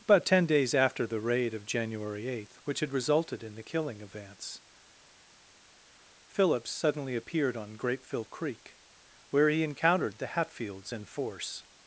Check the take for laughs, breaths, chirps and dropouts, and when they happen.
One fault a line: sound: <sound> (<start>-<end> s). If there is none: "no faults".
no faults